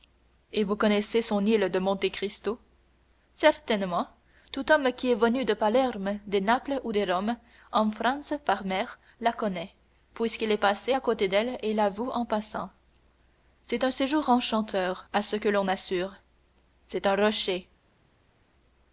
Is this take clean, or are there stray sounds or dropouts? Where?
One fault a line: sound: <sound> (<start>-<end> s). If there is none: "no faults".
no faults